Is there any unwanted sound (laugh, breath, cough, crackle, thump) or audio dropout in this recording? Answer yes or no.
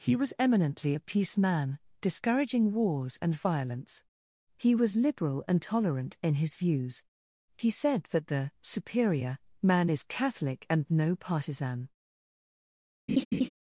yes